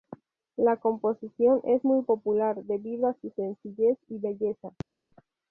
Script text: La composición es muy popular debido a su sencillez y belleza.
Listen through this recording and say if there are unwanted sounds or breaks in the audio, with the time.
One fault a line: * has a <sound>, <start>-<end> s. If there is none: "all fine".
all fine